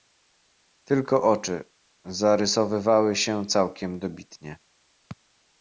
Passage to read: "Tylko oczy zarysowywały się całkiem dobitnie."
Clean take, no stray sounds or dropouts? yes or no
yes